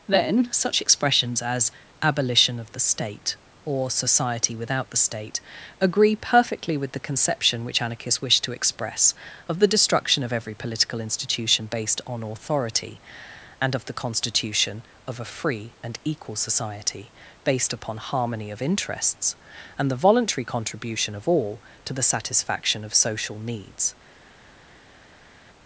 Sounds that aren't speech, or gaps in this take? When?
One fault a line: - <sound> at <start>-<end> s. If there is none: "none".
none